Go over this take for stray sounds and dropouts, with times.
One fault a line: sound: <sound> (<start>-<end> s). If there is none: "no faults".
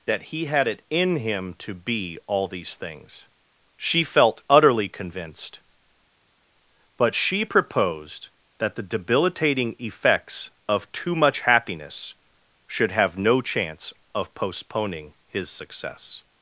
no faults